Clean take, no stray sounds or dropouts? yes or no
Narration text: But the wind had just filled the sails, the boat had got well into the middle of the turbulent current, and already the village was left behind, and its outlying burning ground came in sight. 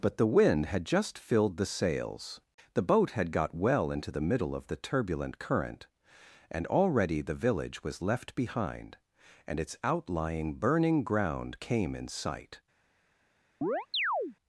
no